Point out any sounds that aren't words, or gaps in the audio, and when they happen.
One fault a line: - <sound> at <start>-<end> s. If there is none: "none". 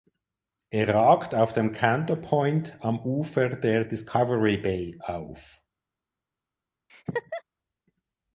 - laugh at 6.9-7.4 s